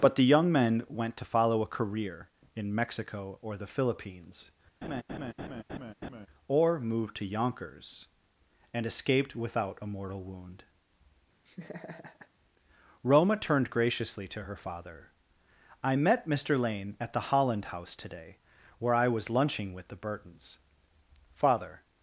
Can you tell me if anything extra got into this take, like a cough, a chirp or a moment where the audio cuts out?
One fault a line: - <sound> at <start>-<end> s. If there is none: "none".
- laugh at 4.8-6.3 s
- laugh at 11.5-12.3 s